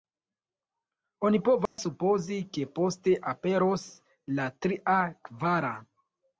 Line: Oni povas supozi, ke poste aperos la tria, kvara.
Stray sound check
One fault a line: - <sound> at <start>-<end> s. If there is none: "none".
- dropout at 1.7-1.8 s